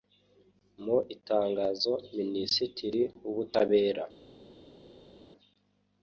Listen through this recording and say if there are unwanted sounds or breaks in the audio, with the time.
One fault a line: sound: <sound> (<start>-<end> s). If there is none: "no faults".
no faults